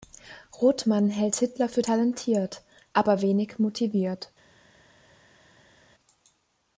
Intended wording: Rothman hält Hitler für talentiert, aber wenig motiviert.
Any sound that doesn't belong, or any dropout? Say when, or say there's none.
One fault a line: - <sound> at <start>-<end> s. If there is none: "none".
none